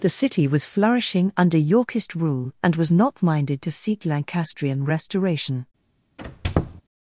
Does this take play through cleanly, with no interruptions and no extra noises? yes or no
no